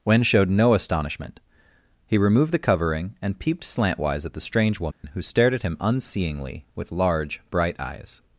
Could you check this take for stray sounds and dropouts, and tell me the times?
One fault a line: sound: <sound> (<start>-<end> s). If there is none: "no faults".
sound: dropout (4.9-5.0 s)